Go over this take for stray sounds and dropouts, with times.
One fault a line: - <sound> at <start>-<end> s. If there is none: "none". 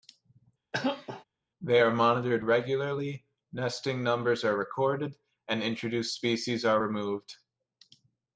- cough at 0.7-1.2 s